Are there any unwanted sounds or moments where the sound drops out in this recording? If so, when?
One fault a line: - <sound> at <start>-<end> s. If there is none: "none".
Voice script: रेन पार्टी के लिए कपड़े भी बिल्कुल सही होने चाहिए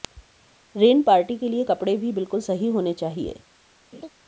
- laugh at 3.9-4.1 s